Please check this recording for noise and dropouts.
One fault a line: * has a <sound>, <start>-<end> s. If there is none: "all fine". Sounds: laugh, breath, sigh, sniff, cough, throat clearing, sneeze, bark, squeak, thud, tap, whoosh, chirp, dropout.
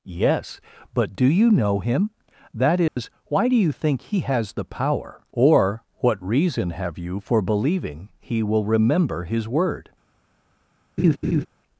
* has a dropout, 2.9-3.0 s
* has a laugh, 11.0-11.5 s